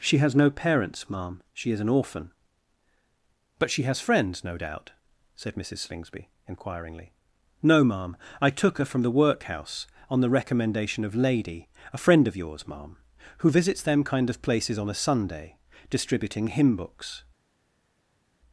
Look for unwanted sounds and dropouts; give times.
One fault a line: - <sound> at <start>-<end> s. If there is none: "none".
none